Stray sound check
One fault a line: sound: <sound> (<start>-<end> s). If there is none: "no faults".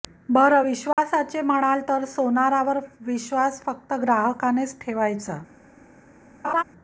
sound: dropout (0.9-1.0 s)
sound: laugh (6.4-6.6 s)